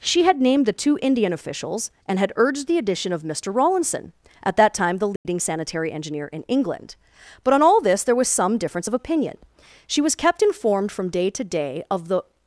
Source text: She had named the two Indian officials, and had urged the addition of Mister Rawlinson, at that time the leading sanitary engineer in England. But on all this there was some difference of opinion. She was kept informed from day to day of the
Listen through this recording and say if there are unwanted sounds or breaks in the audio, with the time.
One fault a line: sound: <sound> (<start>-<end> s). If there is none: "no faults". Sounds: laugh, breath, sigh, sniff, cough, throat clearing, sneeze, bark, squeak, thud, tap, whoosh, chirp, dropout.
sound: dropout (5.2-5.3 s)